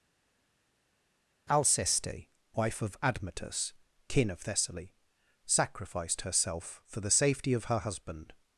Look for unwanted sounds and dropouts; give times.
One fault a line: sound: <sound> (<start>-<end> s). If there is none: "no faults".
no faults